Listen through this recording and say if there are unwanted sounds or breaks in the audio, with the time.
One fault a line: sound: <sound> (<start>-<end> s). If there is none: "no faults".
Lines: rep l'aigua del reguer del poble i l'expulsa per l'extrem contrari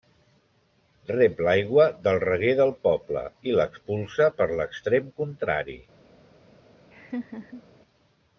sound: laugh (6.9-7.6 s)